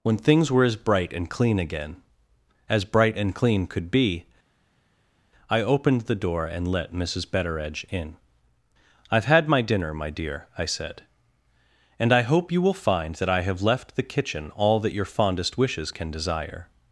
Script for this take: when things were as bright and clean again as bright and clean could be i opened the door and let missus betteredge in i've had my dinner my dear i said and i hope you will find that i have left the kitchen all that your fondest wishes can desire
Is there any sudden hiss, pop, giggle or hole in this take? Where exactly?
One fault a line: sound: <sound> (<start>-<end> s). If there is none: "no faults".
no faults